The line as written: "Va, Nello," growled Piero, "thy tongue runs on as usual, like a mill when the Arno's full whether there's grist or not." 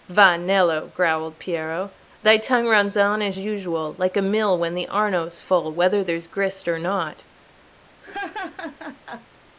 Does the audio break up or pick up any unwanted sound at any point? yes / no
yes